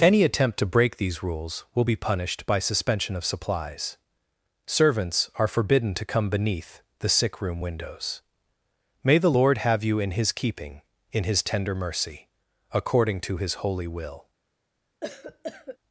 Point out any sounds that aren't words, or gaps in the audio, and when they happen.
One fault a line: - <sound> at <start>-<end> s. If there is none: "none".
- cough at 15.0-15.8 s